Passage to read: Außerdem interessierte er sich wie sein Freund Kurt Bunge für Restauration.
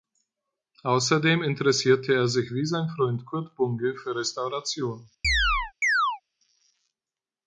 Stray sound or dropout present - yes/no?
yes